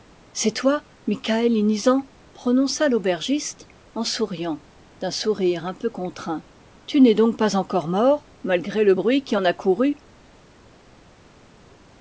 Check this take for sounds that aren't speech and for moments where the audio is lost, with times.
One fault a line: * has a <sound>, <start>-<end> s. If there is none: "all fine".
all fine